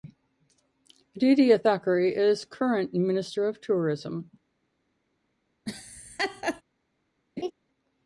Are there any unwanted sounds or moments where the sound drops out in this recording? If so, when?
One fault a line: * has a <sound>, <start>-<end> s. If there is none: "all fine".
* has a laugh, 5.7-6.6 s
* has a laugh, 7.4-7.5 s